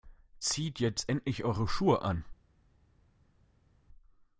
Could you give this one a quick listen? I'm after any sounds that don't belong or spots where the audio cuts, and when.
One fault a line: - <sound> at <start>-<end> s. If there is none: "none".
none